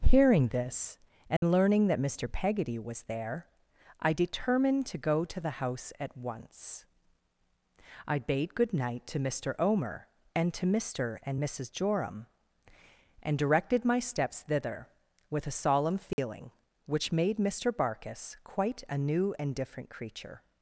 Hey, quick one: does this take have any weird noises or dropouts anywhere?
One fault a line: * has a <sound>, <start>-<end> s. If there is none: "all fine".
* has a dropout, 1.4-1.4 s
* has a dropout, 16.1-16.2 s